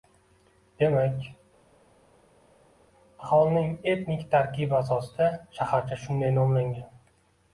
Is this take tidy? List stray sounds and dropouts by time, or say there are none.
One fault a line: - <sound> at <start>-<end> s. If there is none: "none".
none